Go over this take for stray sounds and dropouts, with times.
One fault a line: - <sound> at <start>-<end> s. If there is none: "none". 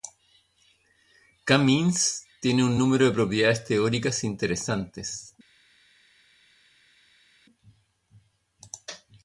none